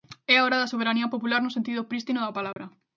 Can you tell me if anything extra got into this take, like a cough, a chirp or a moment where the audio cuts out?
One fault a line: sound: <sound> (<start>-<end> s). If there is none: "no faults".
sound: dropout (2.5-2.6 s)